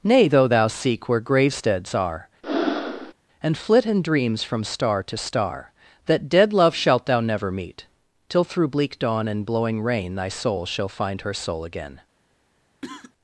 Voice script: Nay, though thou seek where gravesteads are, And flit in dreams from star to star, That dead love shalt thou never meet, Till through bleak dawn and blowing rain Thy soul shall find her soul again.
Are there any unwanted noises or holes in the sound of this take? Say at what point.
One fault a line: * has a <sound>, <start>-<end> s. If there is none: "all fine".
* has a breath, 2.4-3.1 s
* has a cough, 12.8-13.1 s